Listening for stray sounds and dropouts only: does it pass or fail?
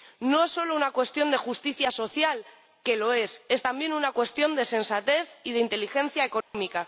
fail